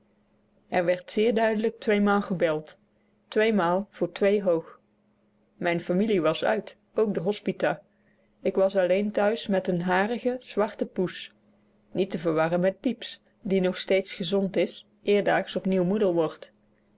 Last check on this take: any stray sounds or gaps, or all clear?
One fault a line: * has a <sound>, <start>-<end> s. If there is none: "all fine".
all fine